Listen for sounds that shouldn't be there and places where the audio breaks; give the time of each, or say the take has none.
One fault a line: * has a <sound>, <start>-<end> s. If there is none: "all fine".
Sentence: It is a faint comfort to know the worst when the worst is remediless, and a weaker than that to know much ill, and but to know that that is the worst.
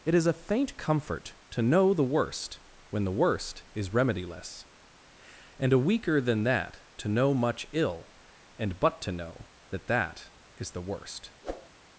* has a whoosh, 11.4-11.7 s